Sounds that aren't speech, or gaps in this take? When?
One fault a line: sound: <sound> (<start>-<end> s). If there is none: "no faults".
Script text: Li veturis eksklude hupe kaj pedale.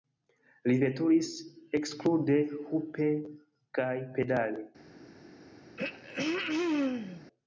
sound: throat clearing (5.8-7.3 s)